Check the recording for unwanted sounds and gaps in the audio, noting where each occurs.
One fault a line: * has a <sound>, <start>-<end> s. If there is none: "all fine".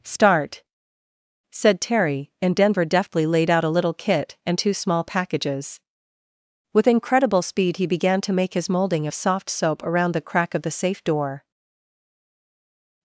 all fine